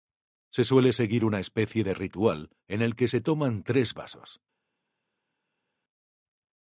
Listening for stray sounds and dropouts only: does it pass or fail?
pass